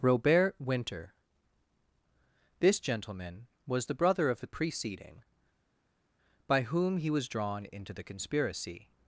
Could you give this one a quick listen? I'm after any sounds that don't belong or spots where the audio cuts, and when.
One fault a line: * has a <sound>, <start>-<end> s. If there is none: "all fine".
all fine